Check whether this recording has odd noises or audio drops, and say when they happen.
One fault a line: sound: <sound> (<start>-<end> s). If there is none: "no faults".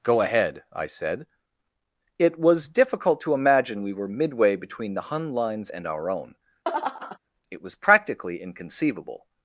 sound: laugh (6.6-7.2 s)